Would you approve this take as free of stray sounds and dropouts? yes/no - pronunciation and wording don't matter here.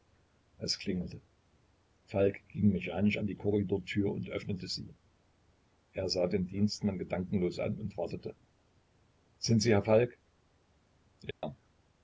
no